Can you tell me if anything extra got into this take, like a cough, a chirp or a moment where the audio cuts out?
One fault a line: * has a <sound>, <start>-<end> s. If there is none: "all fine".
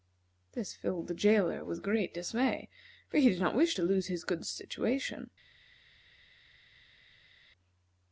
all fine